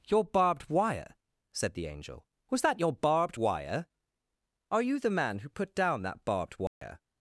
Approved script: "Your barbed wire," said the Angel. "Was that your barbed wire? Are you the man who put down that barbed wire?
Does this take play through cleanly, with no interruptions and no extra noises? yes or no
no